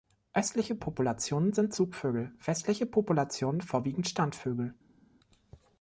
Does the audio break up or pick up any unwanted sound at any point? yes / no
no